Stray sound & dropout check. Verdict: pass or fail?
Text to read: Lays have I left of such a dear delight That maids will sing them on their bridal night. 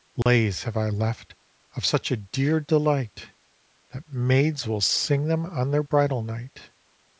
fail